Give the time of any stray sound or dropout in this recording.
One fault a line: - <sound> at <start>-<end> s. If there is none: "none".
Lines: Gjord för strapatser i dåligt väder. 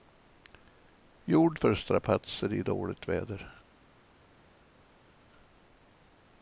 none